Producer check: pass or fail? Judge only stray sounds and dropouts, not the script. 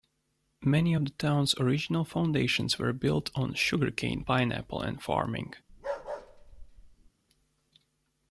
fail